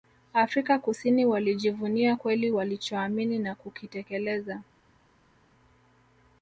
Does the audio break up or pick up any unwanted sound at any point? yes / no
no